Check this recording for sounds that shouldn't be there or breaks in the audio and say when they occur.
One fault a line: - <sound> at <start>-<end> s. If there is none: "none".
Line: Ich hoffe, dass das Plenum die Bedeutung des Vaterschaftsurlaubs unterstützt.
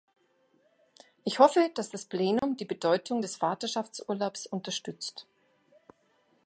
- dropout at 2.4-2.4 s